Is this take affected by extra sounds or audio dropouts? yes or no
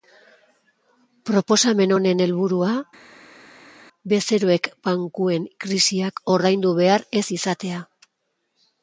no